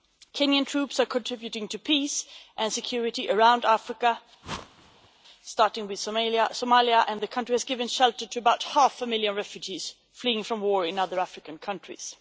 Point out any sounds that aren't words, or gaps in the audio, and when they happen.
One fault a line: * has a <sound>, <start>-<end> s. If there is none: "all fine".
* has a whoosh, 4.4-5.1 s